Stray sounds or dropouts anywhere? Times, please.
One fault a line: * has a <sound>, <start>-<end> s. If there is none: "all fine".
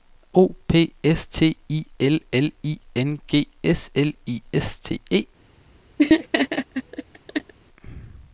* has a laugh, 6.0-7.5 s